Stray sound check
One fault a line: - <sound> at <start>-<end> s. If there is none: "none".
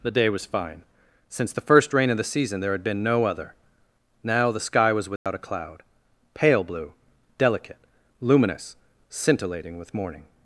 - dropout at 5.2-5.3 s